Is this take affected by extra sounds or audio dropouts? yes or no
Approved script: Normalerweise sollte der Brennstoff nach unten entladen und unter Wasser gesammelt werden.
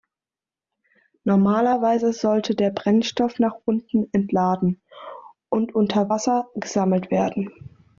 no